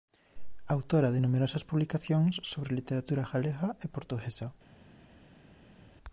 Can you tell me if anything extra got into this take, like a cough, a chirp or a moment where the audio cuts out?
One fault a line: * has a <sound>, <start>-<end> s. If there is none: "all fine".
all fine